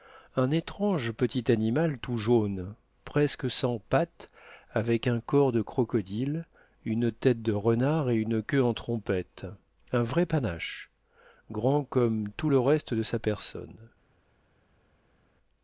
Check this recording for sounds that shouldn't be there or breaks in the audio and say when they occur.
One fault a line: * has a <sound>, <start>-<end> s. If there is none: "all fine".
all fine